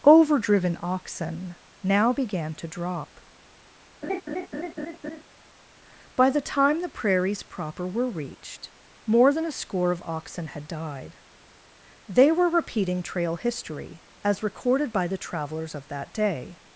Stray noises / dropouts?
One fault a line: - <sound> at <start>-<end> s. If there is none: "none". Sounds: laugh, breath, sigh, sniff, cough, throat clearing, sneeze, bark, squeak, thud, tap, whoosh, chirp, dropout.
- laugh at 4.0-5.2 s